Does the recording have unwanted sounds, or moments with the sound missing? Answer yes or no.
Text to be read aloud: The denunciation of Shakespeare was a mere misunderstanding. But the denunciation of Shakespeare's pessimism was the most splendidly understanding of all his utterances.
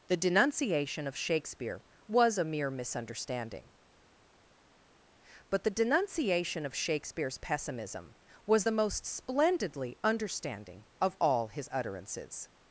no